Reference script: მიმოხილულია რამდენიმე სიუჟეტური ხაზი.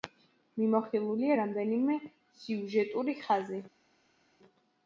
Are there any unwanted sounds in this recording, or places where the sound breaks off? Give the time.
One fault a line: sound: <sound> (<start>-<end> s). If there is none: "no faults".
no faults